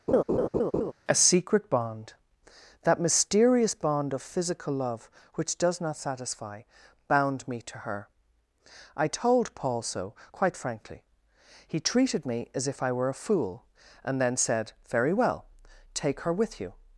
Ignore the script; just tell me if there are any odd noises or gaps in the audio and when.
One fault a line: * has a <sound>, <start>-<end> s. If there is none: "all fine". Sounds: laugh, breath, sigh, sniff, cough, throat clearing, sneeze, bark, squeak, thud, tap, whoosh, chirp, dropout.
* has a laugh, 0.1-0.9 s